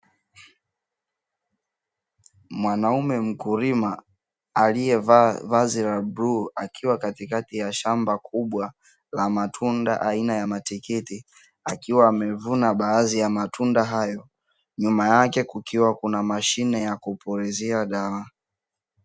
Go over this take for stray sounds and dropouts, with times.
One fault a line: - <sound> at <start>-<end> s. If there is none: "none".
none